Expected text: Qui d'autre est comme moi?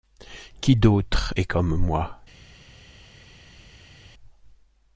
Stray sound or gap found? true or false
false